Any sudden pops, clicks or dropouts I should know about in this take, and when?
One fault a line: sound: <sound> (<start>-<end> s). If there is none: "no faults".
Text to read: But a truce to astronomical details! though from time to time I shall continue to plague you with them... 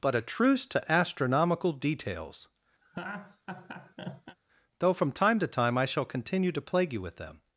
sound: laugh (2.8-4.4 s)